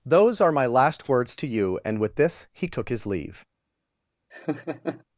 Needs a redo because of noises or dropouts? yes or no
yes